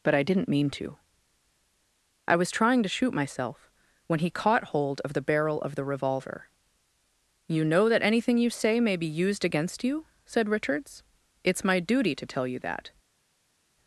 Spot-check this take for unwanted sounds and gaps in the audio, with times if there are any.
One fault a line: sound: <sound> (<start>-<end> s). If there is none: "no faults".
no faults